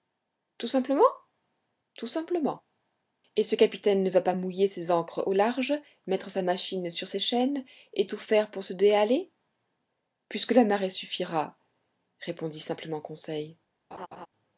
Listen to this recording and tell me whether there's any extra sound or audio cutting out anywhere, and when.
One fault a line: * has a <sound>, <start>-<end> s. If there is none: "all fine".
* has a laugh, 13.9-14.3 s